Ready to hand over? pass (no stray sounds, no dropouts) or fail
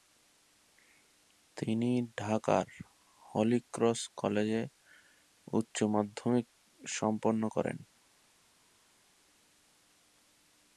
pass